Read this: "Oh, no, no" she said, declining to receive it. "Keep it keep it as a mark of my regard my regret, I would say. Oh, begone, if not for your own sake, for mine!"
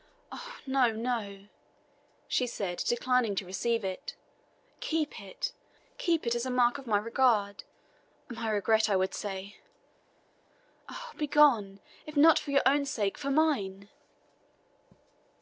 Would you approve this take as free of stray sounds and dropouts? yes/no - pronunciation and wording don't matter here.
yes